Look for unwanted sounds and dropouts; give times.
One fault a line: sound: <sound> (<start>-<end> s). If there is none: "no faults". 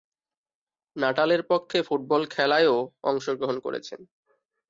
no faults